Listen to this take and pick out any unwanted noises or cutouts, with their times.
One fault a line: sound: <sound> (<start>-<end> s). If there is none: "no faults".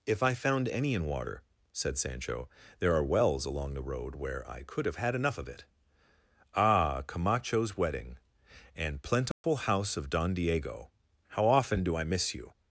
sound: dropout (9.3-9.4 s)